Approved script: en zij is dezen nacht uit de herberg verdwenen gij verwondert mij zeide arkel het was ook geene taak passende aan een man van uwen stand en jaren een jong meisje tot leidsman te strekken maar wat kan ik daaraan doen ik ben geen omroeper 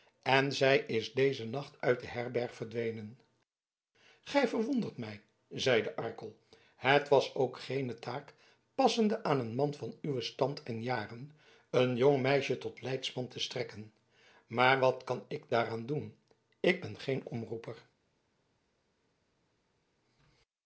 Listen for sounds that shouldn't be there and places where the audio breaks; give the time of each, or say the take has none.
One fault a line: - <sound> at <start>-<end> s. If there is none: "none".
none